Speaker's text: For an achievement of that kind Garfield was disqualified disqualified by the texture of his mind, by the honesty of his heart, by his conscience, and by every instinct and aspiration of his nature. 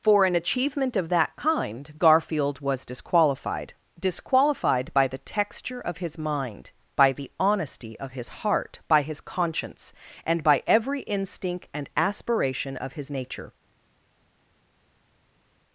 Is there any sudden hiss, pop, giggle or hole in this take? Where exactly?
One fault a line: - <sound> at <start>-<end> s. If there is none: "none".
none